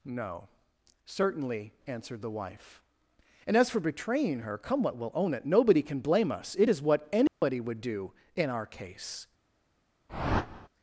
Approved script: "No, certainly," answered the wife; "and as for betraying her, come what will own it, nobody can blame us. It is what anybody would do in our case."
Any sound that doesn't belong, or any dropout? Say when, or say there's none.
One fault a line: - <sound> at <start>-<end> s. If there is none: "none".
- dropout at 7.3-7.4 s
- whoosh at 10.1-10.7 s